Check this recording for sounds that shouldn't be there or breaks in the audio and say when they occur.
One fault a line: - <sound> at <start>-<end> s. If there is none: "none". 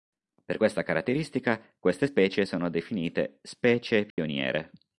- dropout at 4.1-4.2 s